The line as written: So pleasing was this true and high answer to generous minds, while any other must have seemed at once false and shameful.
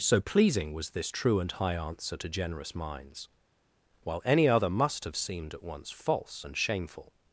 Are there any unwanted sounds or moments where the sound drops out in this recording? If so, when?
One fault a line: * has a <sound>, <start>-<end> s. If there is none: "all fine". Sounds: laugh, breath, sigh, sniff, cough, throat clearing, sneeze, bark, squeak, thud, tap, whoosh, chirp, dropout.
all fine